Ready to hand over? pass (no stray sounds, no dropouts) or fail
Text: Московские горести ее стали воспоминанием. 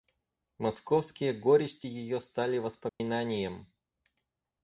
fail